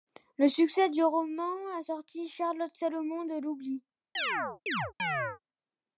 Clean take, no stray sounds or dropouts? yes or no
no